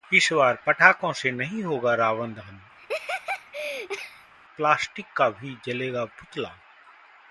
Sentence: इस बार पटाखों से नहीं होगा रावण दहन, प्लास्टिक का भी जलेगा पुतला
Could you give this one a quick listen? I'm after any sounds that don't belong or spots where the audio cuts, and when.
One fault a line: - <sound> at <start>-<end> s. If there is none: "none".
- laugh at 2.8-4.3 s